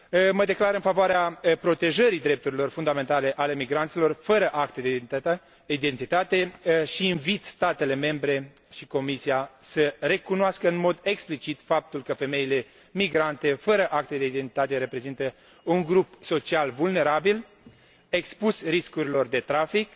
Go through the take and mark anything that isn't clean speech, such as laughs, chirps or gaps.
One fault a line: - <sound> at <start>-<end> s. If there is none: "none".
none